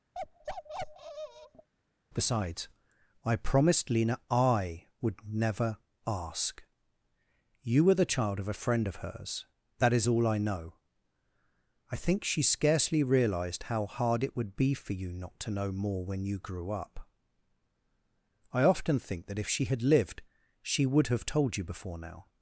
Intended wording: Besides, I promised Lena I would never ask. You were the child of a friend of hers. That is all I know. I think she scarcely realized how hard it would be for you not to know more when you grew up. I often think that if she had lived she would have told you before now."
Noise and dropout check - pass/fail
fail